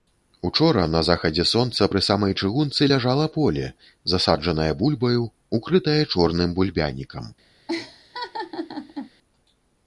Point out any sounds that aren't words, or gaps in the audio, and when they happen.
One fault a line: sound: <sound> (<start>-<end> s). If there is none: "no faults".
sound: laugh (7.7-9.1 s)